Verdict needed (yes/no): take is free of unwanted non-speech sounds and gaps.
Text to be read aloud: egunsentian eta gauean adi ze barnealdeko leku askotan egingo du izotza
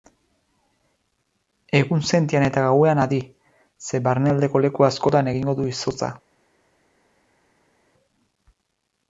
yes